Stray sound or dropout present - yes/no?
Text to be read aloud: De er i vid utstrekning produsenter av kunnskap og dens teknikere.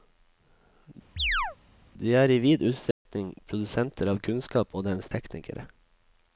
yes